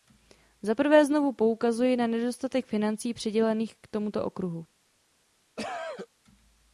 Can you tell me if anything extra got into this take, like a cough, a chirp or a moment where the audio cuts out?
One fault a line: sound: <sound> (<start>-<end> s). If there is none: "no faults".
sound: cough (5.6-6.1 s)